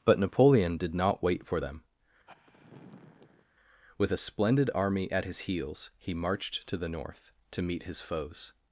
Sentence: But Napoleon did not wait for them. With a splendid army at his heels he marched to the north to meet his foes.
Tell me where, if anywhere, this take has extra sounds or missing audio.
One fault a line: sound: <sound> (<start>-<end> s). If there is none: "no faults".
sound: sigh (2.3-3.5 s)